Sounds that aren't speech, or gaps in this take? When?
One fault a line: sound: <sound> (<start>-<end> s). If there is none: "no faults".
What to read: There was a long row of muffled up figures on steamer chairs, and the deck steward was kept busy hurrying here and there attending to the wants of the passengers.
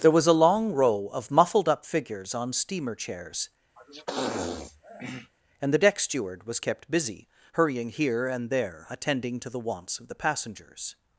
sound: sniff (3.8-5.3 s)